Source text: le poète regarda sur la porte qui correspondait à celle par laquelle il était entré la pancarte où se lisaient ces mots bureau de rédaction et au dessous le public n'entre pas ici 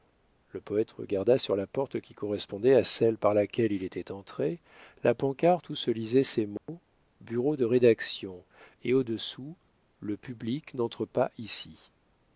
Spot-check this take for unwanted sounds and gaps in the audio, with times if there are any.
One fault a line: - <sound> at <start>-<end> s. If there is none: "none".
- dropout at 6.6-6.7 s